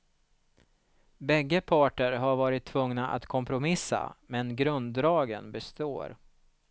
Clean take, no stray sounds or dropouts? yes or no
yes